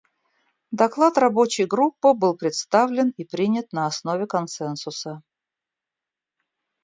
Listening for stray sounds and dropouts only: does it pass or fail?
pass